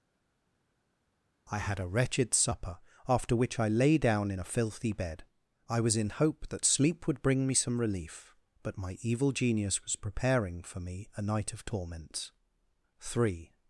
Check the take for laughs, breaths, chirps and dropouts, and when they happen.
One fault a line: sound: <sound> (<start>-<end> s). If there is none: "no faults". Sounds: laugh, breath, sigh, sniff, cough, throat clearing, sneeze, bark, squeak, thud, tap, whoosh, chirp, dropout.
no faults